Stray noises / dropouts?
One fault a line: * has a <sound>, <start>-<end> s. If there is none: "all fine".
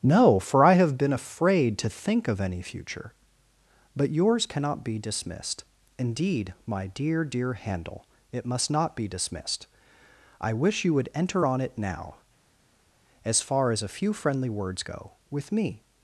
all fine